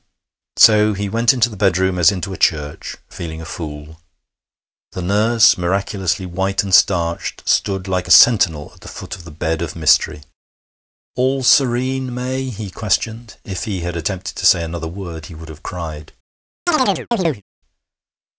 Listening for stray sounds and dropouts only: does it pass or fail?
fail